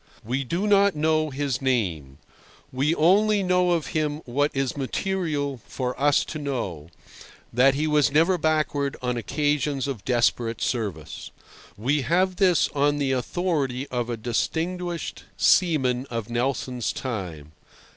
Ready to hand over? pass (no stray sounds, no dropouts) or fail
pass